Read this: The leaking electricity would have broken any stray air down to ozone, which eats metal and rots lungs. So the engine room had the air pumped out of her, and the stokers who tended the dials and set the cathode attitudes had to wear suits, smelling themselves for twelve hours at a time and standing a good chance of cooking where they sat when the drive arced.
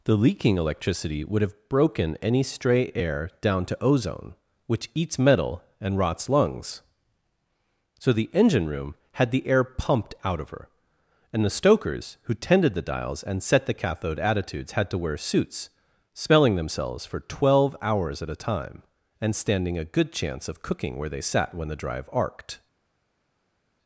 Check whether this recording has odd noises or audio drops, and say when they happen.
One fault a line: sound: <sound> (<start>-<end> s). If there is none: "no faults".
no faults